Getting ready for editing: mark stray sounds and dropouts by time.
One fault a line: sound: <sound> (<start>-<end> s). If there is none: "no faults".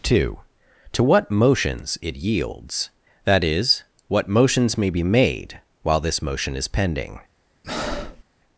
sound: breath (7.6-8.2 s)